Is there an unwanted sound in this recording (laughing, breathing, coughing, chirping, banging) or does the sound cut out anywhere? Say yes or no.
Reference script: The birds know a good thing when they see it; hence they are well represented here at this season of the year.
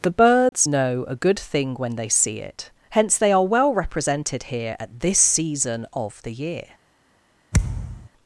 yes